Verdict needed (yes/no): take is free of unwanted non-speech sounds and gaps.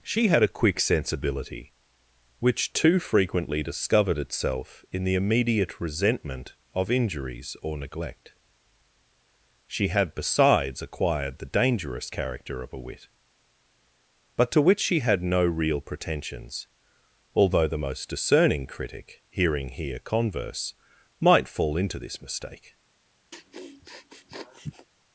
no